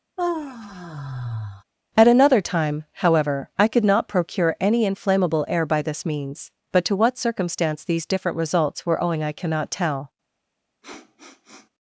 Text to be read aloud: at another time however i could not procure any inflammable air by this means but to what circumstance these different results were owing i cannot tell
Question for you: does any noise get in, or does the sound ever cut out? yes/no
yes